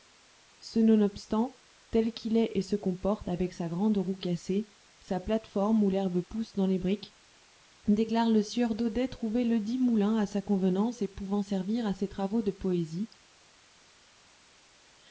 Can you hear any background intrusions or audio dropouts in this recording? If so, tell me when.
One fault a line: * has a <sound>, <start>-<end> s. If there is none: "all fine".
all fine